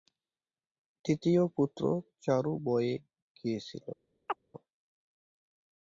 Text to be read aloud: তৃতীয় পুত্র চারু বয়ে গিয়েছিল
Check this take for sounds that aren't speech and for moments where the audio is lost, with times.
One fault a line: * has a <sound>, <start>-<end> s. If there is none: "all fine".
* has a chirp, 4.3-4.4 s